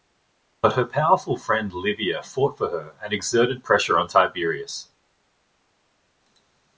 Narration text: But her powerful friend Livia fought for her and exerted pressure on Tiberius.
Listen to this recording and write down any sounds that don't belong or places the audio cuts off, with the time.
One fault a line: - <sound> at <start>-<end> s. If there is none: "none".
none